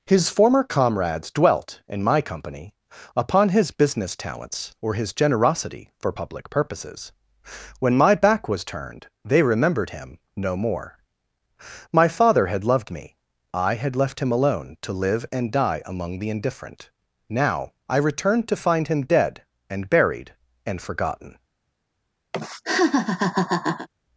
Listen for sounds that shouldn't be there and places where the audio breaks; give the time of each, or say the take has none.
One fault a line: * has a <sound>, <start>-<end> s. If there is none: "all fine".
* has a laugh, 22.3-23.9 s